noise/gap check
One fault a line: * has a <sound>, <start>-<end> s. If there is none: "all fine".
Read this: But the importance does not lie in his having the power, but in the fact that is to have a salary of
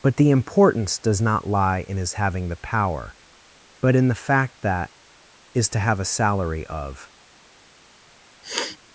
* has a sniff, 8.4-8.8 s